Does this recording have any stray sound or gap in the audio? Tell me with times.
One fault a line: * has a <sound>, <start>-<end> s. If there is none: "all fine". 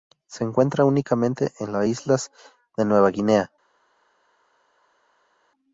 all fine